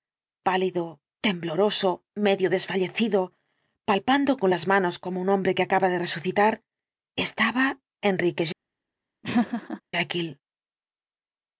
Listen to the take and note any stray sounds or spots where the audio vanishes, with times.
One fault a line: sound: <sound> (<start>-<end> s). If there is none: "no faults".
sound: laugh (9.2-9.8 s)